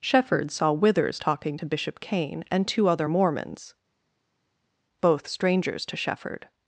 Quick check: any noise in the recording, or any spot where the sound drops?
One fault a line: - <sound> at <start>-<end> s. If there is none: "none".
none